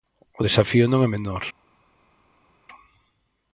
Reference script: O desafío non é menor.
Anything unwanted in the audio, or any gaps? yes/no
no